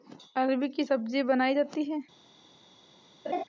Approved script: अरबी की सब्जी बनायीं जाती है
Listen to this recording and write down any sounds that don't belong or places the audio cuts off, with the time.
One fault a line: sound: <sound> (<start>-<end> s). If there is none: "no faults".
sound: laugh (3.3-3.4 s)